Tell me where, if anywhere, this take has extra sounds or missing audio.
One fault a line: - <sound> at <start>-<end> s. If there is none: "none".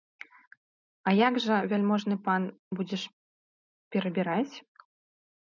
none